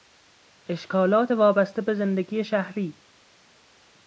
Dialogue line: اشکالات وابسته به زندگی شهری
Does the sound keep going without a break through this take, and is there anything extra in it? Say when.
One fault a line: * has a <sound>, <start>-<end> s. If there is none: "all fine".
all fine